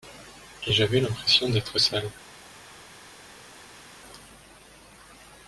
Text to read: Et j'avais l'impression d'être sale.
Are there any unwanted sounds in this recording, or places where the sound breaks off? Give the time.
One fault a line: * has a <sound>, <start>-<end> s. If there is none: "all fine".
all fine